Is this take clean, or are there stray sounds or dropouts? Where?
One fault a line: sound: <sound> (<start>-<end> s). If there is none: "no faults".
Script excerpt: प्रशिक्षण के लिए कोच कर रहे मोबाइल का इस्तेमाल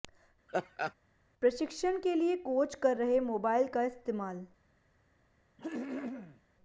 sound: laugh (0.5-0.9 s)
sound: throat clearing (5.6-6.4 s)